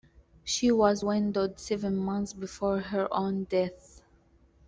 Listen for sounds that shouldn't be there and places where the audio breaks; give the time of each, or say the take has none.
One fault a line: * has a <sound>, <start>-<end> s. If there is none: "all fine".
all fine